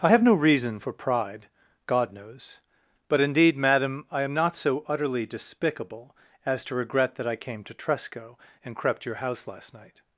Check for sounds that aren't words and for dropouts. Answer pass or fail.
pass